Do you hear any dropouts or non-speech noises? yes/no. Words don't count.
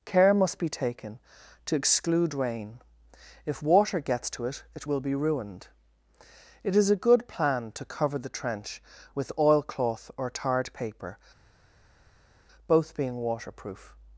no